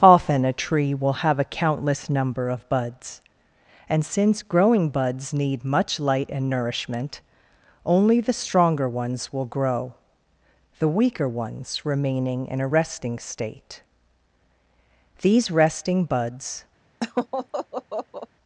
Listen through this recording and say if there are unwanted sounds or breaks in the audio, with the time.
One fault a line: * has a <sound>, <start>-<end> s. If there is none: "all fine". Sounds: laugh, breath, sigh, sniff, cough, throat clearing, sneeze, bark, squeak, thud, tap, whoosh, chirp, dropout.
* has a laugh, 17.0-18.3 s